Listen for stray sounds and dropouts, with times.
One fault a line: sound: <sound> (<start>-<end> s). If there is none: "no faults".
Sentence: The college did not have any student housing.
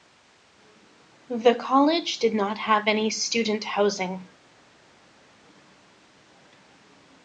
no faults